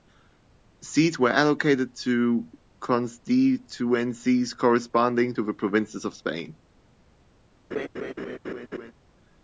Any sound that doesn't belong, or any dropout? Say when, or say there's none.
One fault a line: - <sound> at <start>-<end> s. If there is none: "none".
- laugh at 7.7-8.9 s